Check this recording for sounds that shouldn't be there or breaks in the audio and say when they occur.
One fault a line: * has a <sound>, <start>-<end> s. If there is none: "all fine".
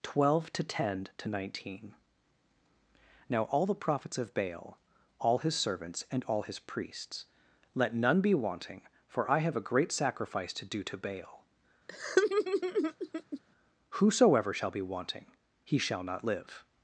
* has a laugh, 11.9-13.4 s